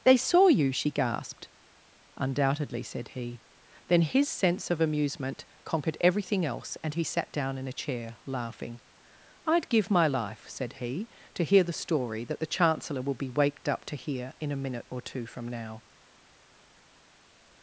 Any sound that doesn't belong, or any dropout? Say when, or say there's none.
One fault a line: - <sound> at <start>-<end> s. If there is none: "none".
none